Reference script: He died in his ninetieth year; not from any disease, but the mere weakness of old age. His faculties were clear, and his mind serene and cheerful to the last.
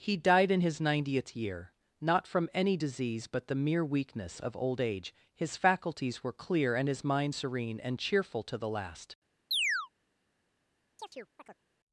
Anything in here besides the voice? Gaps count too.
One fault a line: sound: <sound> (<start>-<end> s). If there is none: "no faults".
sound: chirp (9.5-9.9 s)
sound: chirp (11.0-11.6 s)